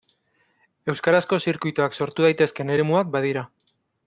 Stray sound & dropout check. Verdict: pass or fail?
pass